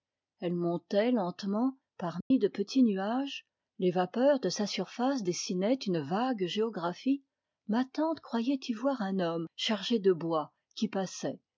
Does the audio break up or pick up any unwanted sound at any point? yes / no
yes